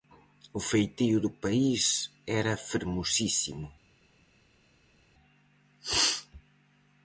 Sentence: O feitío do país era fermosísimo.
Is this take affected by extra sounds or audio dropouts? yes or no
no